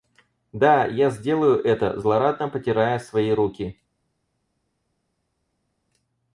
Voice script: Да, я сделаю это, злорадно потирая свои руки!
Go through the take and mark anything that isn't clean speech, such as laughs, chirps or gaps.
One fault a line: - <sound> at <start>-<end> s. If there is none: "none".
none